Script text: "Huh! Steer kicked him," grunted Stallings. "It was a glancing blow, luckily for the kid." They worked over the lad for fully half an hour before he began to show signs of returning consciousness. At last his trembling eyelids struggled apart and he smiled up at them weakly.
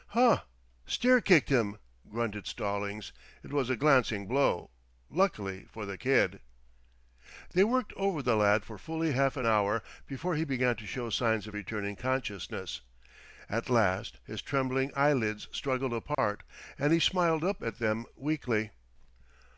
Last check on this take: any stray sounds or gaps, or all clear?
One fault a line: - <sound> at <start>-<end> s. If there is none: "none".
- dropout at 16.1-16.2 s